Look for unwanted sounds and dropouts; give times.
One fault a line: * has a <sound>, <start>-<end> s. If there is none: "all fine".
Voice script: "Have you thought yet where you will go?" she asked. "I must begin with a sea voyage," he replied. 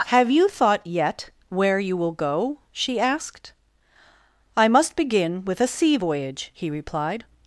all fine